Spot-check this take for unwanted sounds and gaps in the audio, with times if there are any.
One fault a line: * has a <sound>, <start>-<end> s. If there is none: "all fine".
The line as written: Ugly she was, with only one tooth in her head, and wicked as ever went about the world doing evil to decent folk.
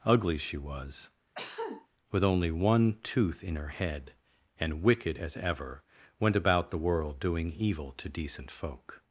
* has a cough, 1.4-1.9 s